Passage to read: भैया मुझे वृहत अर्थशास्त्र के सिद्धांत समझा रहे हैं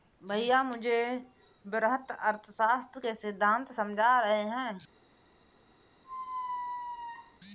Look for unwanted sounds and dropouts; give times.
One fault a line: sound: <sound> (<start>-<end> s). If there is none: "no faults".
sound: squeak (6.0-7.4 s)